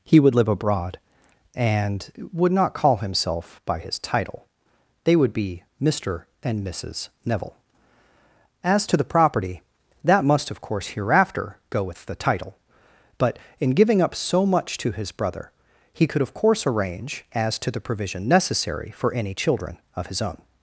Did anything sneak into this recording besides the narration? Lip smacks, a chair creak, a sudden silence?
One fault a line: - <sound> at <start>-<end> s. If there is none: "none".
none